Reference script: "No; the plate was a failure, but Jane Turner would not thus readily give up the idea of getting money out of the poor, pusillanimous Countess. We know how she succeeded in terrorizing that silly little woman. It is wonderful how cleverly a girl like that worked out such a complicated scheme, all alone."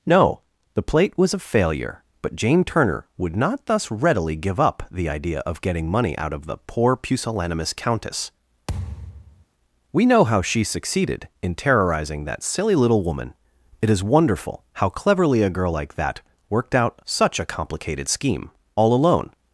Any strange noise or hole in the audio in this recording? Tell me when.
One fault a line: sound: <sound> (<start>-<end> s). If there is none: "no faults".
sound: thud (8.7-9.5 s)